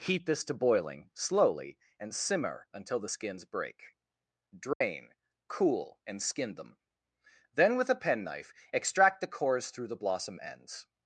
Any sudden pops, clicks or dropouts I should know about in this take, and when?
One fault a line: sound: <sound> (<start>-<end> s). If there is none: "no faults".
sound: dropout (4.7-4.8 s)